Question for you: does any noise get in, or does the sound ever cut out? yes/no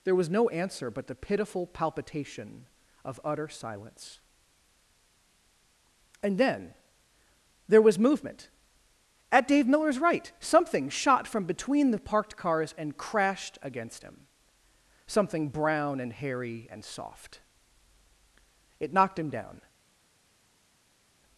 no